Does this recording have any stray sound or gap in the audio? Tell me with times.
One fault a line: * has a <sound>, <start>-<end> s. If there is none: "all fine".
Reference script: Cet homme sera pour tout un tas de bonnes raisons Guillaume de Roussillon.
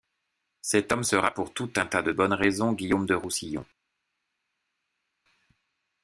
all fine